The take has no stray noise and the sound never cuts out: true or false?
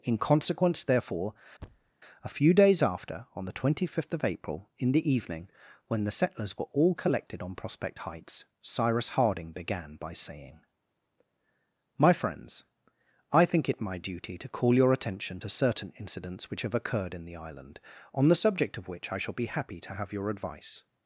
false